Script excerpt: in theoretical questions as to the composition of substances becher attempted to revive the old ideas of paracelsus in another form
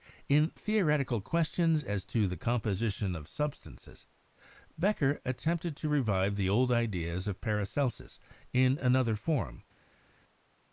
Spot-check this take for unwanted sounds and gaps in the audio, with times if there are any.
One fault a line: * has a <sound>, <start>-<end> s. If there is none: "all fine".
all fine